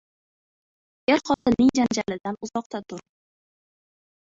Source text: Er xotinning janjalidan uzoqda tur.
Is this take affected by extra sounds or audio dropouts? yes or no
yes